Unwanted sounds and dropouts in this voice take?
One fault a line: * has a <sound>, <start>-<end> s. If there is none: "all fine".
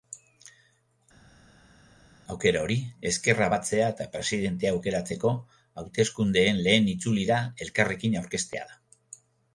all fine